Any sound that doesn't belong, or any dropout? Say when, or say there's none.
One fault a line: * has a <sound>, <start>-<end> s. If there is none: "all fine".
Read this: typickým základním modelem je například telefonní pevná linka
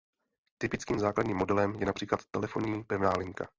all fine